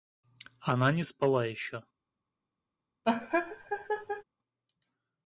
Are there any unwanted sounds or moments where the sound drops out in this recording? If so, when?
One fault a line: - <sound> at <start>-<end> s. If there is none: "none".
- laugh at 3.0-4.2 s